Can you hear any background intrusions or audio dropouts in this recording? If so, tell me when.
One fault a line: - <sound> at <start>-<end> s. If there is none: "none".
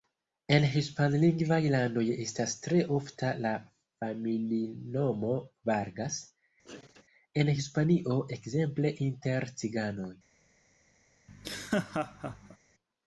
- sneeze at 6.6-7.0 s
- laugh at 11.3-12.6 s